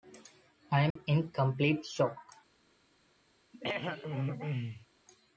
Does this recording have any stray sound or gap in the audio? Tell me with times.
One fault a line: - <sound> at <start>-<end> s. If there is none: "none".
- dropout at 0.9-1.0 s
- throat clearing at 3.5-4.9 s